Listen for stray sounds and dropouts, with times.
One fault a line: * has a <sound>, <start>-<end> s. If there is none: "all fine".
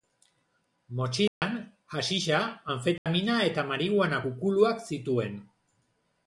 * has a dropout, 1.3-1.4 s
* has a dropout, 3.0-3.1 s